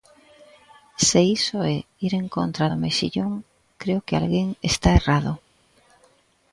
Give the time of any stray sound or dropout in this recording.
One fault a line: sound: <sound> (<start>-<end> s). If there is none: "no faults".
no faults